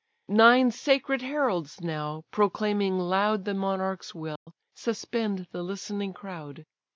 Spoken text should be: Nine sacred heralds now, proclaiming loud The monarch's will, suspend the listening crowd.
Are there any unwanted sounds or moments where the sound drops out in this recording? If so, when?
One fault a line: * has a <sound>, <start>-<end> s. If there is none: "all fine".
* has a dropout, 4.4-4.5 s